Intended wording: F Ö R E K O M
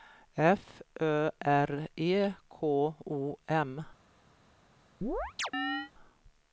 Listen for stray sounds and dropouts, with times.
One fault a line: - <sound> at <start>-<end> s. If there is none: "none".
- chirp at 5.0-5.9 s